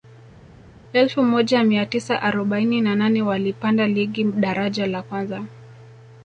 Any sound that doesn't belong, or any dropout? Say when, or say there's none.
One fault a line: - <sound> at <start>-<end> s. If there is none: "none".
none